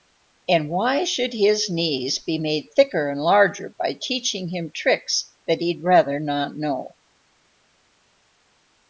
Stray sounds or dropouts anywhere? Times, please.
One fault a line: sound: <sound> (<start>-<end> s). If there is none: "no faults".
no faults